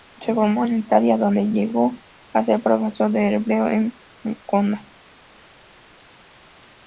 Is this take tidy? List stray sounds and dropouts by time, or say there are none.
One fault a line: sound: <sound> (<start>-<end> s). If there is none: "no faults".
no faults